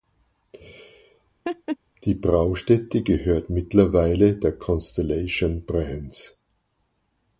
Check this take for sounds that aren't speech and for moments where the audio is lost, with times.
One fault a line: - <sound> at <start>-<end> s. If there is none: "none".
- laugh at 1.4-1.8 s